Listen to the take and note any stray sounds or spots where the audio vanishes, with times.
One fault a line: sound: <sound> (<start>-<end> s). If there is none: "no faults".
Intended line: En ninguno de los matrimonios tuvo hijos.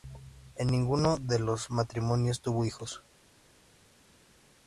no faults